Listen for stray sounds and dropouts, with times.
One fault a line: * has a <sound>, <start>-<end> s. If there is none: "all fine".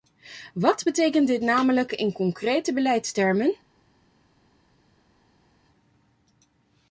all fine